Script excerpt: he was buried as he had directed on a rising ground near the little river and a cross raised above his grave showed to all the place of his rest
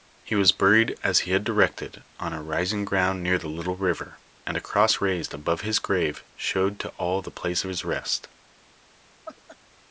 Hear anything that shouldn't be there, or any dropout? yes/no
yes